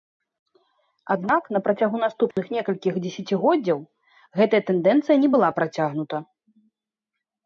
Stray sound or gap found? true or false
true